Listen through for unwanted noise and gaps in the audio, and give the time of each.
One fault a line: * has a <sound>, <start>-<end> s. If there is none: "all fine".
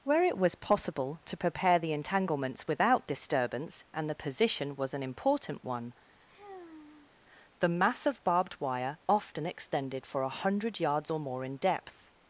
* has a sigh, 6.3-7.2 s